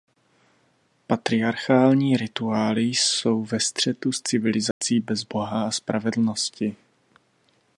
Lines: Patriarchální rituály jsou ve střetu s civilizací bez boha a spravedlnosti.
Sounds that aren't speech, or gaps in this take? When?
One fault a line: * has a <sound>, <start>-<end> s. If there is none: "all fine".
* has a dropout, 4.7-4.8 s